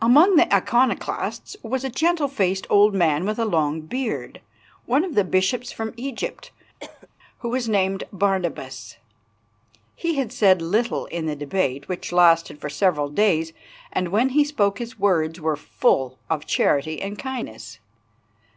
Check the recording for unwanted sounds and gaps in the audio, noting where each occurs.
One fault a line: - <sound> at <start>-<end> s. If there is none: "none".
- cough at 6.8-7.1 s